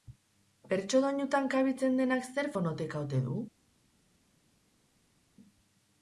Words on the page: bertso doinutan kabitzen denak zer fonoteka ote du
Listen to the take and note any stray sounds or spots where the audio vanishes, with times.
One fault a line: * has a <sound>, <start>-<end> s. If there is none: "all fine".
all fine